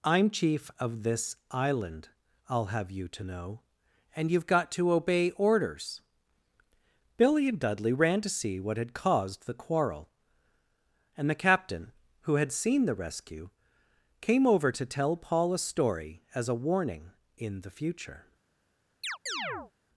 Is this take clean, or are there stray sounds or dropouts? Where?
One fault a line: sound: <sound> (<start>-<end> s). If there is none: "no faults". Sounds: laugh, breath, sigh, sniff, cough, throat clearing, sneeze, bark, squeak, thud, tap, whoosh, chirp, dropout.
sound: chirp (19.0-19.7 s)